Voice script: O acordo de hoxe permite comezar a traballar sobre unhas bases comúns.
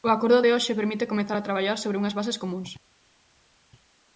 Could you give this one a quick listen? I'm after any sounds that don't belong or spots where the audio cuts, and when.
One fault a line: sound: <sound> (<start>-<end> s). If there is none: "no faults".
no faults